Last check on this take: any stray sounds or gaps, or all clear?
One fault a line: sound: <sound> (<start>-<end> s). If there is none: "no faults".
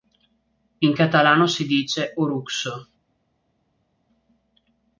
no faults